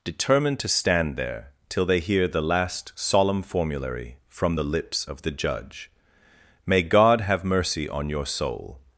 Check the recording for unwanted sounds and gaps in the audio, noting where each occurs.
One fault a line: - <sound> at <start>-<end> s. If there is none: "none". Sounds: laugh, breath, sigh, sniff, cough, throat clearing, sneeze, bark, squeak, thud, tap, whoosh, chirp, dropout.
none